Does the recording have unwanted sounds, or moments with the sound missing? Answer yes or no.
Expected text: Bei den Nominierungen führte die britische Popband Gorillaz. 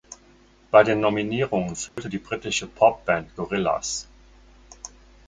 yes